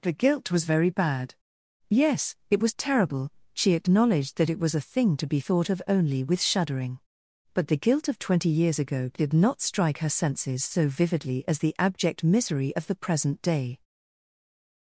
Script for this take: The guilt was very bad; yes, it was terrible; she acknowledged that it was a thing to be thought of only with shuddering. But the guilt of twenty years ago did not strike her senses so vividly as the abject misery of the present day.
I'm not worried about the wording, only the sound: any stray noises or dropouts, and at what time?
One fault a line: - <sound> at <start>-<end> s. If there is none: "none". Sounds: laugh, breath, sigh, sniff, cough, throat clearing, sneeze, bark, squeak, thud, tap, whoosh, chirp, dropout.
none